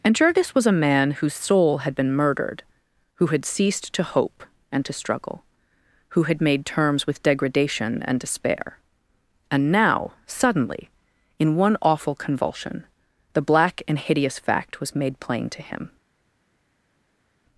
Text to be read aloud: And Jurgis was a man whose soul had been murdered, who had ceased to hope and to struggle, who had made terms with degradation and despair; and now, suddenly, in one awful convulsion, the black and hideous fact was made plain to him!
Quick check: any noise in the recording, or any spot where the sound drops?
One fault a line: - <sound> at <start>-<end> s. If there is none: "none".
none